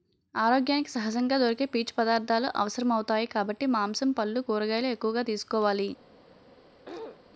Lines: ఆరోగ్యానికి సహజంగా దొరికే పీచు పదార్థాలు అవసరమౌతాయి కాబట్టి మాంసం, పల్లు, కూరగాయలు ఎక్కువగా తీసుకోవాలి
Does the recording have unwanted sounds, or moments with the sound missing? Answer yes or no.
yes